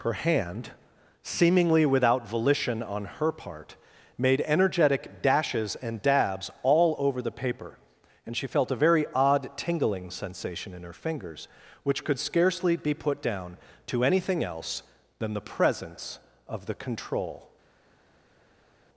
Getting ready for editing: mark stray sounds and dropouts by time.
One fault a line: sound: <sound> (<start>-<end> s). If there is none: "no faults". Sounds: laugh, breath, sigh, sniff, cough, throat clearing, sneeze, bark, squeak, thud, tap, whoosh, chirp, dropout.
no faults